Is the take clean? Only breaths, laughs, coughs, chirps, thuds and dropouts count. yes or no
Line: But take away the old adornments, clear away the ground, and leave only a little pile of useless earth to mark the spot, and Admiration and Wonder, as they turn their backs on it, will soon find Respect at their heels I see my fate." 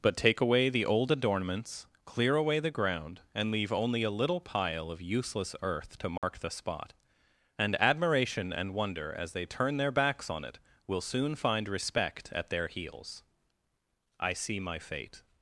no